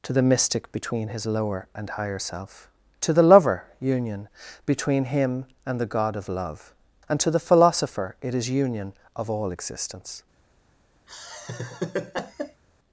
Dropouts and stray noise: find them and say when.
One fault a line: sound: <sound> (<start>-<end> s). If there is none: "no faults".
sound: laugh (11.1-12.6 s)